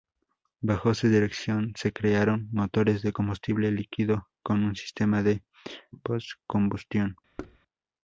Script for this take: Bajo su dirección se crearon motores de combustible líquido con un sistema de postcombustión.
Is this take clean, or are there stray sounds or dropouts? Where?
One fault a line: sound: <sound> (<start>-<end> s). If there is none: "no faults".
sound: thud (7.4-7.6 s)